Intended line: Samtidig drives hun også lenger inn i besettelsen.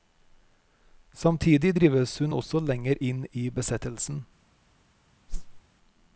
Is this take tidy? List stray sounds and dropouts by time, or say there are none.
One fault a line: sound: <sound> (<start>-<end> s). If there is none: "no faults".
sound: whoosh (5.3-5.6 s)